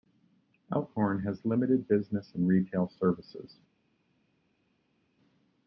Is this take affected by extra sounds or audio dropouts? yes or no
no